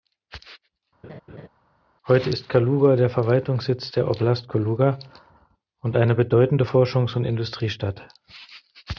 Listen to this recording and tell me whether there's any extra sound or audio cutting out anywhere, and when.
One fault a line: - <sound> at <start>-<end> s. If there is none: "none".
- laugh at 1.0-1.5 s